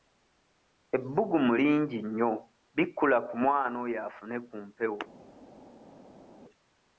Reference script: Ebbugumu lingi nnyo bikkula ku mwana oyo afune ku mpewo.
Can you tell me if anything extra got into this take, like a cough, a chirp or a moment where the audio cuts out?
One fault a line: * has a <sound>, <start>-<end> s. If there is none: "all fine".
all fine